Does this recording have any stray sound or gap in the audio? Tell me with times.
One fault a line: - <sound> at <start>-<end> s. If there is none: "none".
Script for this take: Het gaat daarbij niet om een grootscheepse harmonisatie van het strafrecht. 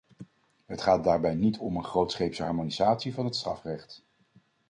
none